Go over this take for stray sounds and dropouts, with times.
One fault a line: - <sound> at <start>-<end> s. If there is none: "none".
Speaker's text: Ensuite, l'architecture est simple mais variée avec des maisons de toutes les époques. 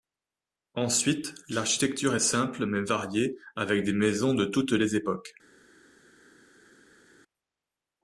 none